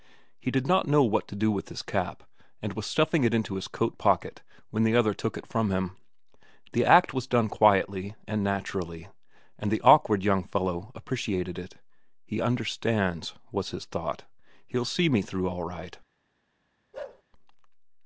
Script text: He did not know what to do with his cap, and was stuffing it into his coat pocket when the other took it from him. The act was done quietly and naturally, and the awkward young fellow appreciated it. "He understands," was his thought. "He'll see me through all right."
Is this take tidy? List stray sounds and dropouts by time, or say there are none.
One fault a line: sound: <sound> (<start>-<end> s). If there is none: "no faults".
sound: bark (16.9-17.2 s)